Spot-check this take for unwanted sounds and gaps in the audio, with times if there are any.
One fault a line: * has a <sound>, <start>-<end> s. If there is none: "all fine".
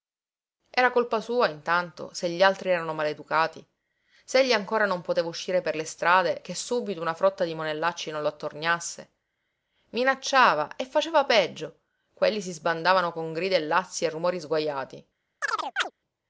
* has a chirp, 15.4-15.9 s